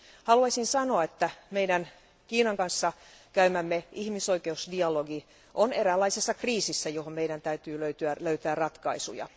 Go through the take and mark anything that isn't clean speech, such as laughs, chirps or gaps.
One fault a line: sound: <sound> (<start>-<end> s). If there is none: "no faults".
no faults